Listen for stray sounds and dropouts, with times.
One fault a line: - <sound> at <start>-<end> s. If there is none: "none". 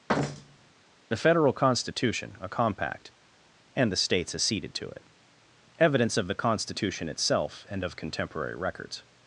- thud at 0.1-0.7 s